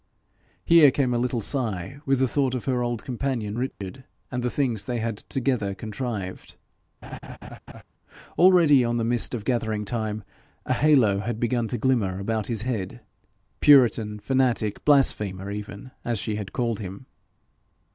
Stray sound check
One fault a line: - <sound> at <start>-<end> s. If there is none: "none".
- dropout at 3.7-3.8 s
- laugh at 7.0-7.8 s